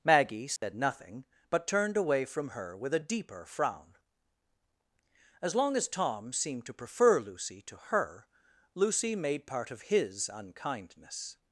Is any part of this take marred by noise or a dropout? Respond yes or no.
yes